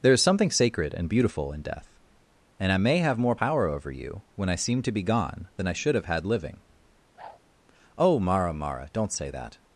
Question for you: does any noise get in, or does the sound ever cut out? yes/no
yes